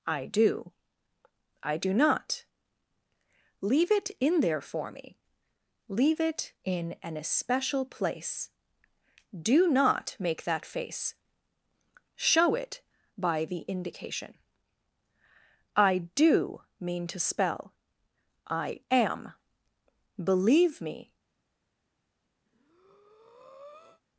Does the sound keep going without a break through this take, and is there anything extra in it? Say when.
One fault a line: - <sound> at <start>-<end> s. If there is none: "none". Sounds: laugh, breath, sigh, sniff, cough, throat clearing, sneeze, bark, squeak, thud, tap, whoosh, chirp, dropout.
- breath at 22.5-24.0 s